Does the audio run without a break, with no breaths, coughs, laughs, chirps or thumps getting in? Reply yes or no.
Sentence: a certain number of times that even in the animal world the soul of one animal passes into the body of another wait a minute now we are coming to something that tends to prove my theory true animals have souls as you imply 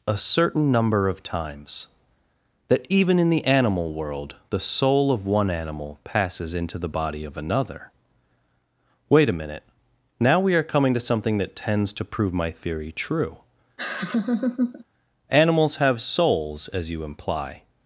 no